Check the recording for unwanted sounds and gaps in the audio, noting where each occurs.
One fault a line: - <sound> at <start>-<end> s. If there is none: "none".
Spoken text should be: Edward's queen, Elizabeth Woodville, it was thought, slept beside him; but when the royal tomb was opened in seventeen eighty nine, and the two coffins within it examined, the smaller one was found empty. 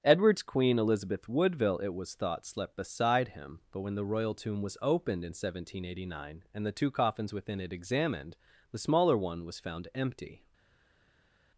none